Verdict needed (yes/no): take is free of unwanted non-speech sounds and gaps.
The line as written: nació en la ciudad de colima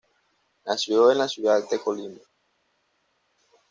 yes